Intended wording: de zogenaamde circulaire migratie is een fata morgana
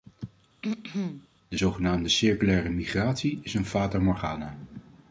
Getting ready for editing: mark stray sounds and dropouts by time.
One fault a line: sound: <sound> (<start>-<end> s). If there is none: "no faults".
sound: throat clearing (0.6-1.3 s)